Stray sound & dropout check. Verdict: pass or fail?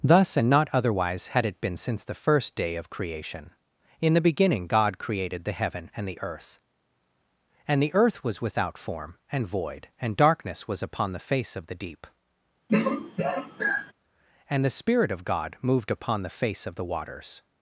fail